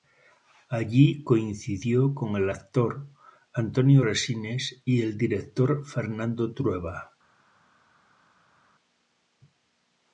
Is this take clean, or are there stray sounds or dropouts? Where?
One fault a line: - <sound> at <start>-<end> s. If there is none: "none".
none